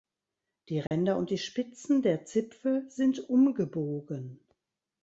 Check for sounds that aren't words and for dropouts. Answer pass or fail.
fail